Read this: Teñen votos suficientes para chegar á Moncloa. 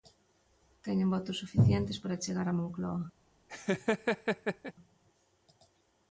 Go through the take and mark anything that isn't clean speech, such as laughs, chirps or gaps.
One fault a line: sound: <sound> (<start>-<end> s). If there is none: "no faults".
sound: laugh (3.5-4.7 s)